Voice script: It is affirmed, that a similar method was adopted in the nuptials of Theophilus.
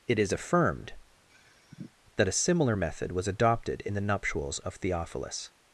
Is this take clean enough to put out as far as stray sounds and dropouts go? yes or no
no